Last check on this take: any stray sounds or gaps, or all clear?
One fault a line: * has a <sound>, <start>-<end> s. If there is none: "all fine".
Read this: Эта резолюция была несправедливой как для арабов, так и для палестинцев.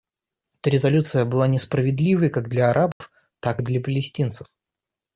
* has a dropout, 2.9-3.0 s